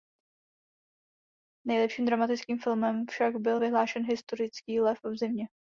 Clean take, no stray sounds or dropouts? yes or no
yes